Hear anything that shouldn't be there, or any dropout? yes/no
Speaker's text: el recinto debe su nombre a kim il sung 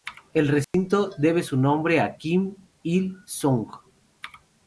yes